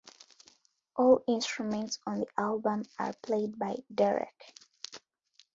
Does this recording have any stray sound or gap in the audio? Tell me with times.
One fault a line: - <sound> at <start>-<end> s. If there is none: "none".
none